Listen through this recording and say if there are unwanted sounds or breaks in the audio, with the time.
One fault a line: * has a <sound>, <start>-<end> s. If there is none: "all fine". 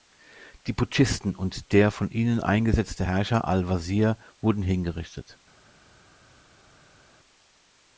all fine